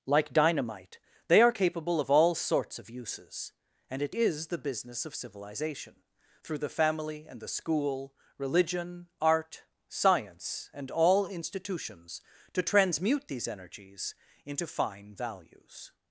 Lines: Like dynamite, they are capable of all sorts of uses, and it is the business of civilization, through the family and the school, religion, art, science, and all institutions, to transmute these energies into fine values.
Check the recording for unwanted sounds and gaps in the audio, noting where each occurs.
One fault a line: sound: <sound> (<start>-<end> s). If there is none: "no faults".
no faults